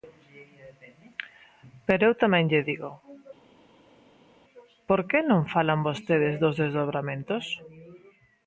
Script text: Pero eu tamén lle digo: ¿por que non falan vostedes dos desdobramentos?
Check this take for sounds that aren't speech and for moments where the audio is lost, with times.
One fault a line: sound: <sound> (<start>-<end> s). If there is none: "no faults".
no faults